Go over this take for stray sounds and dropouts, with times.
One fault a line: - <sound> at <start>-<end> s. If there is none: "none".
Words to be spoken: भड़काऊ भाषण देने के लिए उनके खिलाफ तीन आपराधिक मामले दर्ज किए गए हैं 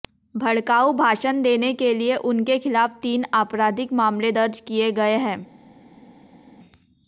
none